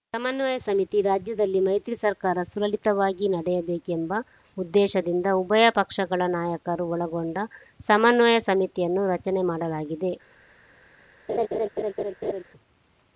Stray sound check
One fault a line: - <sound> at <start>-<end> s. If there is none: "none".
- laugh at 11.3-12.4 s